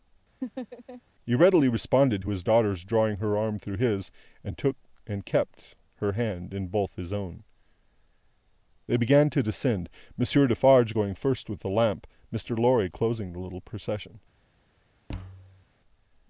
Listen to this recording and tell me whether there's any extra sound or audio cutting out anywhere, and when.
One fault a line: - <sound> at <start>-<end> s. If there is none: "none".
- laugh at 0.4-1.0 s
- thud at 15.1-15.6 s